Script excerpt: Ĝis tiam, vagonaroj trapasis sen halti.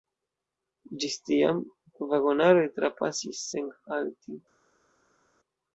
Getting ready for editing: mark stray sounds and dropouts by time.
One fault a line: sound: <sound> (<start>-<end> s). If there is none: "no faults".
no faults